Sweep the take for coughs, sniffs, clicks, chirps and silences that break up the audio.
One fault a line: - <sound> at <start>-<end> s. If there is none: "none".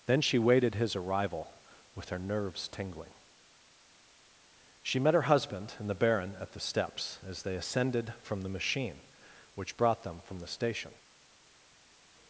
none